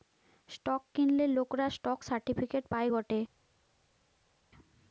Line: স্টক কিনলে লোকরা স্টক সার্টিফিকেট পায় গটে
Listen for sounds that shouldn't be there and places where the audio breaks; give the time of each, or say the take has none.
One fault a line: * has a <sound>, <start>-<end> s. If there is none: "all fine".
all fine